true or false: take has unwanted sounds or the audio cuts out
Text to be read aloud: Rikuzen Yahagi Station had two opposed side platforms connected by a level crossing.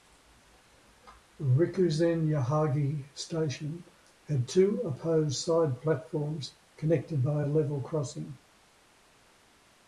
false